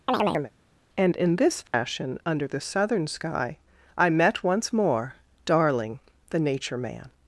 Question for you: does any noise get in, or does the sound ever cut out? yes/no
yes